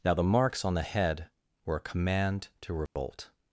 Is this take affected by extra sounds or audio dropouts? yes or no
yes